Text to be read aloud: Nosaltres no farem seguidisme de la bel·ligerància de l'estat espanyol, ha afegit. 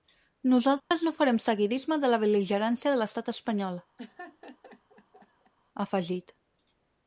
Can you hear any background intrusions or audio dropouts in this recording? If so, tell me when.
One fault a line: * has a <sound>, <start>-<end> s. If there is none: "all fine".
* has a dropout, 0.8-0.9 s
* has a laugh, 4.0-5.5 s